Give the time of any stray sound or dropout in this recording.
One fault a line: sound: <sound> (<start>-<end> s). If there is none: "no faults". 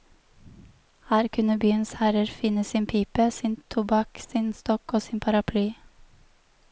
no faults